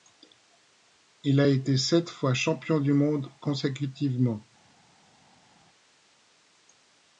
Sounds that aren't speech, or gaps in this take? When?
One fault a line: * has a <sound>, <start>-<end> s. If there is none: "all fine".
all fine